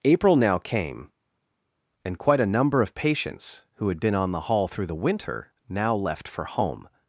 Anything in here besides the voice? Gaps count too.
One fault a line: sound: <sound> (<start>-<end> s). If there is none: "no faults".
no faults